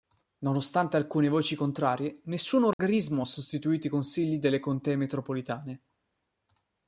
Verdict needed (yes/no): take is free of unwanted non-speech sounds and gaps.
no